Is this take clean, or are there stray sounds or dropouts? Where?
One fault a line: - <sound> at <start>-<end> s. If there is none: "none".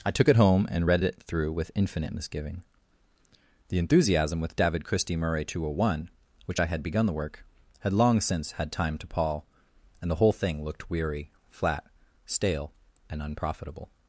none